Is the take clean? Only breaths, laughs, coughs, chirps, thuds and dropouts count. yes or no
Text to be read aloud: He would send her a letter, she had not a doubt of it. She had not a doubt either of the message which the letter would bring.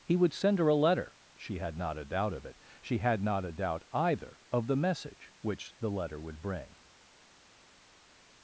yes